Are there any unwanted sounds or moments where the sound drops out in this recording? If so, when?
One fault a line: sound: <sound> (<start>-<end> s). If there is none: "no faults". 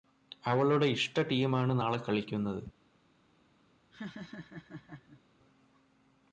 sound: laugh (3.9-5.2 s)